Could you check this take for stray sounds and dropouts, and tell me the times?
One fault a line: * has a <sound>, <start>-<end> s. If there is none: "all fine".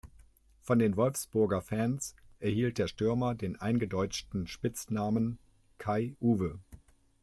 all fine